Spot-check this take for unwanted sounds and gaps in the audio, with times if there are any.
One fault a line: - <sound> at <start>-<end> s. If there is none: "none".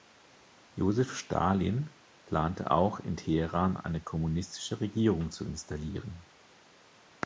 none